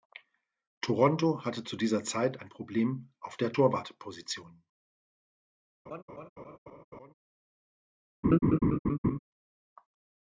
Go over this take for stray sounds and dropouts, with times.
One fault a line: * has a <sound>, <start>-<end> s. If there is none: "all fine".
* has a laugh, 5.9-7.1 s
* has a laugh, 8.2-9.2 s